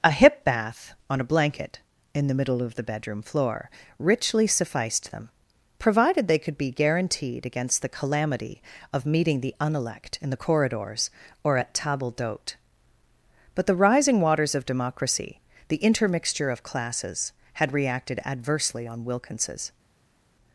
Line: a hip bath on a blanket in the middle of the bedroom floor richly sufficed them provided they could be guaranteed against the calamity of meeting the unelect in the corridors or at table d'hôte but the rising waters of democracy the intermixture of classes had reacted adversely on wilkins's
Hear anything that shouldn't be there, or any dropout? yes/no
no